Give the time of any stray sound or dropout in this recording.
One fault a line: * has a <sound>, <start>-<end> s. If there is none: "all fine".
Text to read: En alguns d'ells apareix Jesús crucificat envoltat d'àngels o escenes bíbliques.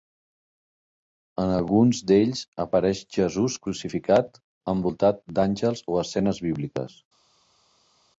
all fine